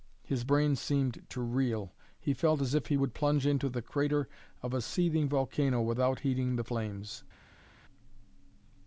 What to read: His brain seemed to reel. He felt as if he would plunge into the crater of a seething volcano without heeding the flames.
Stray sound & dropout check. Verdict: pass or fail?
pass